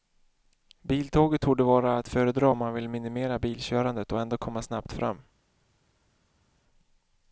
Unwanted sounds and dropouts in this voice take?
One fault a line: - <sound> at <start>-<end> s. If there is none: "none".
none